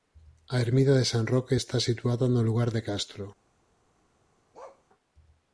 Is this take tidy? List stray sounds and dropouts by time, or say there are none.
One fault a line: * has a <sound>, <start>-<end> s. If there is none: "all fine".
* has a bark, 4.5-4.8 s